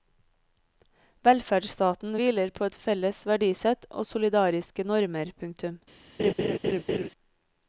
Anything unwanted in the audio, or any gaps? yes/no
yes